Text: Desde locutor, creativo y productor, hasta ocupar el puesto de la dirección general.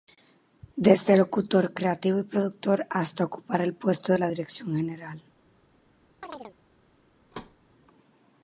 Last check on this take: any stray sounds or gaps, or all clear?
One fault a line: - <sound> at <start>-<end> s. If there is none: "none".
- chirp at 6.2-6.6 s
- thud at 7.3-7.6 s